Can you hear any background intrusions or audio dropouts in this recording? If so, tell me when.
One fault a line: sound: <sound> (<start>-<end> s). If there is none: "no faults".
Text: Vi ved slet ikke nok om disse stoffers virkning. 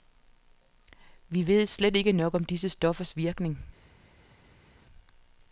no faults